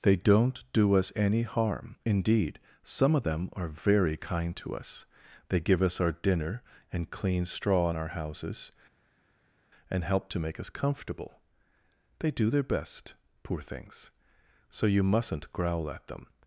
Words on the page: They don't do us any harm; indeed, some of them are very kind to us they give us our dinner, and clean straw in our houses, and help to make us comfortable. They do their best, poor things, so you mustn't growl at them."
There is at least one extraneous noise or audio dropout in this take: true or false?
false